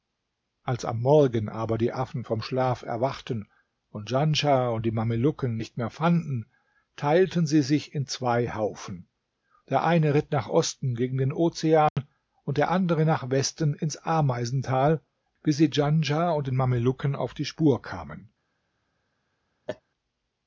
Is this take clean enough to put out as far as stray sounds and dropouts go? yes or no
no